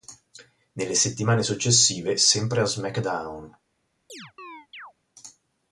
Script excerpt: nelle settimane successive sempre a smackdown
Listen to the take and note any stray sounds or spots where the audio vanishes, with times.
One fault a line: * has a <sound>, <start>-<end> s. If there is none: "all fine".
* has a chirp, 4.1-4.9 s